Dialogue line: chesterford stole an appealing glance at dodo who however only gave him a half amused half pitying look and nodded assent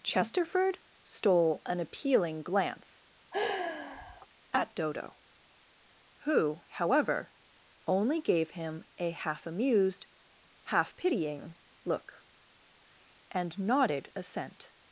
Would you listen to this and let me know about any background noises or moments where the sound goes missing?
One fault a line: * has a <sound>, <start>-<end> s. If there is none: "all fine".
* has a sigh, 3.3-4.3 s